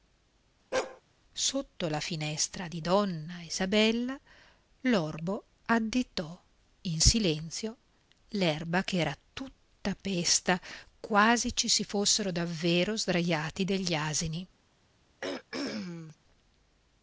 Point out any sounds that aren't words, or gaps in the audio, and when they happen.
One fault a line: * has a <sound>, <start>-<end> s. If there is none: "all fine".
* has a bark, 0.7-1.0 s
* has a throat clearing, 15.2-16.2 s